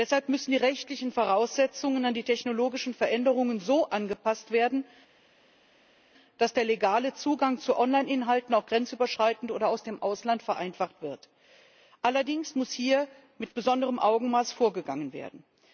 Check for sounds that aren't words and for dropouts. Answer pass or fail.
pass